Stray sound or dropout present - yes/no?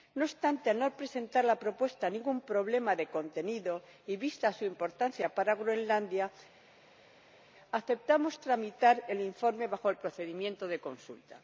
no